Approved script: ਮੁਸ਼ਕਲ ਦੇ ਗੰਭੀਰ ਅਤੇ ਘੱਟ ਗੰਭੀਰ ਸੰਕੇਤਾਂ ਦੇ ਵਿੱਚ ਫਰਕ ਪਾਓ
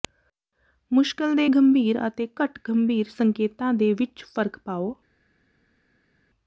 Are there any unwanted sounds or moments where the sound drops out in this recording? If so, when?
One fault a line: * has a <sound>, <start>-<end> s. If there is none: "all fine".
all fine